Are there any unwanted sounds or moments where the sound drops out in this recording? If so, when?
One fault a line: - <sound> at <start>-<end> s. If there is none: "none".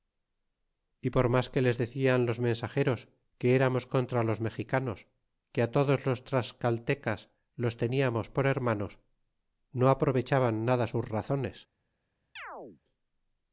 - chirp at 12.4-12.8 s